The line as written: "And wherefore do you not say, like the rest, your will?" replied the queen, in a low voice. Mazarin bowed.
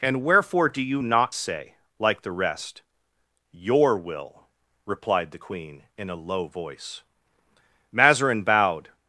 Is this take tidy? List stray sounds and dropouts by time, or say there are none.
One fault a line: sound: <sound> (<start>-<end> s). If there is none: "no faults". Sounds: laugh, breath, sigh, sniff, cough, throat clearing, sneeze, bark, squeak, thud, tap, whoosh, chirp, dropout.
no faults